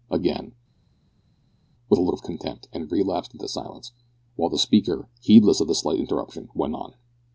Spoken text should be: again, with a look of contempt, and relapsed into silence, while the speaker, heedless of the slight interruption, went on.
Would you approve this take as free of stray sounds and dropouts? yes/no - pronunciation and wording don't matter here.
yes